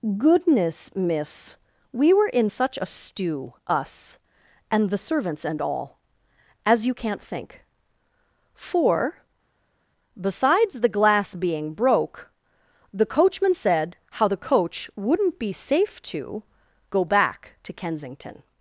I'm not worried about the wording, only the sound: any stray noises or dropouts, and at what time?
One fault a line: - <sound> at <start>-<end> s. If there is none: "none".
none